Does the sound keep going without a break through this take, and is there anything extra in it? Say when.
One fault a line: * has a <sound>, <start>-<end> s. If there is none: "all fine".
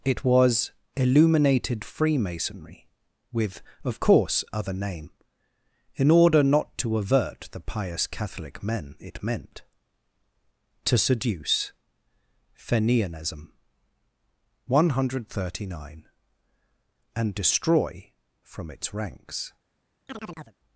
* has a chirp, 20.1-20.6 s